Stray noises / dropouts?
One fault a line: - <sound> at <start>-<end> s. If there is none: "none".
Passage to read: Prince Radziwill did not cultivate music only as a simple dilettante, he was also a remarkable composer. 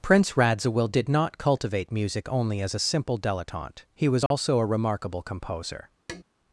- dropout at 4.3-4.3 s
- tap at 6.1-6.2 s